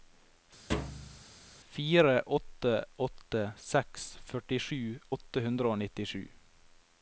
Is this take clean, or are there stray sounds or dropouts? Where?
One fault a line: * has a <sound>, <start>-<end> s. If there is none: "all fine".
* has a thud, 0.7-1.2 s